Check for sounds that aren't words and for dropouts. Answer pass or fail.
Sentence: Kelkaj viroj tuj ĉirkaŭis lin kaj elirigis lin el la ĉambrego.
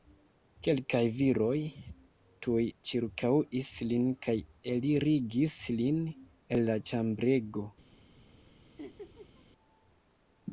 fail